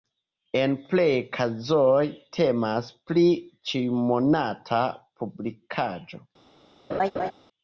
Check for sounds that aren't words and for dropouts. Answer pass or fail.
fail